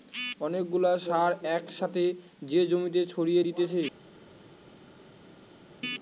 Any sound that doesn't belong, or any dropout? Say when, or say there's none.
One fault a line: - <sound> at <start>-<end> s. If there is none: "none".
none